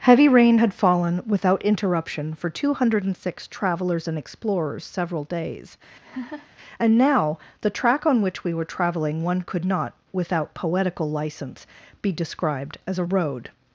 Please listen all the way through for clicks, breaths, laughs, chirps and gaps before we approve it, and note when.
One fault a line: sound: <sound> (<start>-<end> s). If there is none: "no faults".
sound: laugh (6.0-6.5 s)